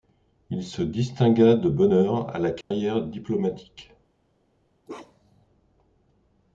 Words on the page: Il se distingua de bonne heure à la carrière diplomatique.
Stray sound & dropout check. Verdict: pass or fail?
fail